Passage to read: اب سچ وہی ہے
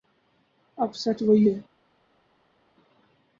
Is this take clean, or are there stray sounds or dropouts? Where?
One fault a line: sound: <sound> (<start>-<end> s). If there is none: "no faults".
no faults